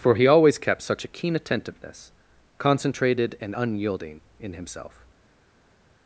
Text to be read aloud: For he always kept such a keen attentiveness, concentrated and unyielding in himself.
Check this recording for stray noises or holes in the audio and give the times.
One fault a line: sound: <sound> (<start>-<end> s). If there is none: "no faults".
no faults